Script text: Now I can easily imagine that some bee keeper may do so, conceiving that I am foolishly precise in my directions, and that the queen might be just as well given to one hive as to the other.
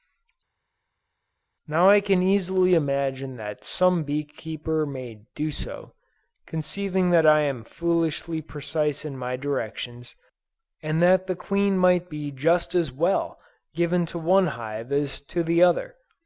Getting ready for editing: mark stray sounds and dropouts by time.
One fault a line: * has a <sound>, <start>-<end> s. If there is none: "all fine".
all fine